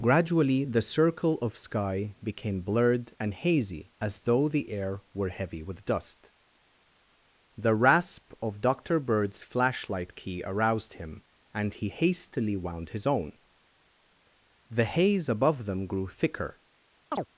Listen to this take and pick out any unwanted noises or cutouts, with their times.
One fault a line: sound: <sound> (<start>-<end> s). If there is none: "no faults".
sound: chirp (17.1-17.3 s)